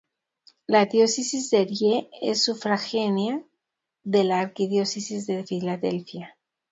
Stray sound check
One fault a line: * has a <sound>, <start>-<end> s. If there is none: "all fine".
all fine